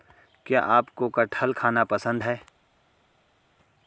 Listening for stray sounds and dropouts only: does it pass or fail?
pass